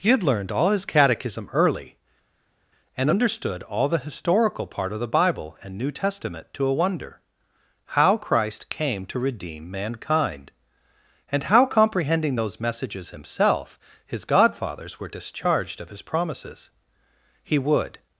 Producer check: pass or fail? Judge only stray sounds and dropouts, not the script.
pass